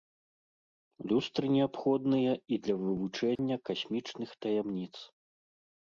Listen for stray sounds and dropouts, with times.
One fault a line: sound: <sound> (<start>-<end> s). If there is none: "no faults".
sound: dropout (3.4-3.4 s)